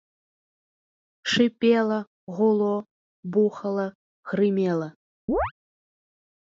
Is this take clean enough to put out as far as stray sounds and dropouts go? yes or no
no